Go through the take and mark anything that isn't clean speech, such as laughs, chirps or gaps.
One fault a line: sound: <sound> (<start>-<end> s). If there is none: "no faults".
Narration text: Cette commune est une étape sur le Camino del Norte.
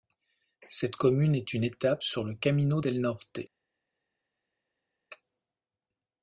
no faults